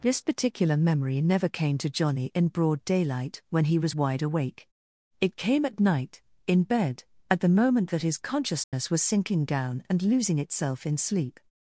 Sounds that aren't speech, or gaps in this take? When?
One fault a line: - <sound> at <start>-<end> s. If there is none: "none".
- dropout at 8.6-8.7 s